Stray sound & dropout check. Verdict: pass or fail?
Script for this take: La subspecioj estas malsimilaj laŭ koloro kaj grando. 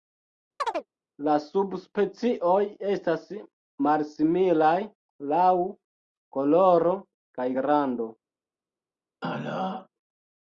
fail